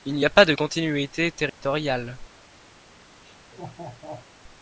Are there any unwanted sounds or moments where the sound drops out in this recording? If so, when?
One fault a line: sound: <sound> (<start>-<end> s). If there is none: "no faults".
sound: dropout (1.5-1.6 s)
sound: laugh (3.2-4.3 s)